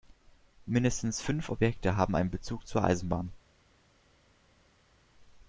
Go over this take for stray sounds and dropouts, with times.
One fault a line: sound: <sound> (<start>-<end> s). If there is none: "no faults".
no faults